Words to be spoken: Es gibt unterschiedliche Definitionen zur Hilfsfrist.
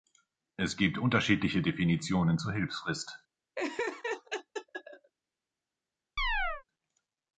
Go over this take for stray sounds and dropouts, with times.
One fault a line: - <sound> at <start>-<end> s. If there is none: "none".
- laugh at 3.6-5.1 s
- chirp at 6.2-6.6 s